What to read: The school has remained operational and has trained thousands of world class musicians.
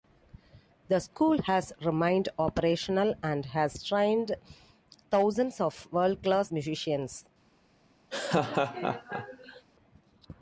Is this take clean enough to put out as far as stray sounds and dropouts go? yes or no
no